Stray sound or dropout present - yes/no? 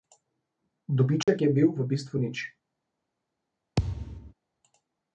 yes